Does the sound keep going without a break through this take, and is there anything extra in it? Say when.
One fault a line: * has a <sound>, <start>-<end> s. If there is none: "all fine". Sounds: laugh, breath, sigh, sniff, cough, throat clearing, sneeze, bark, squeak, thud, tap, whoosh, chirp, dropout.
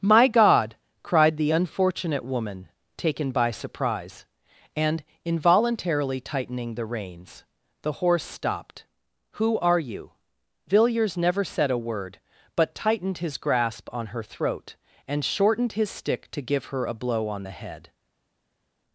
all fine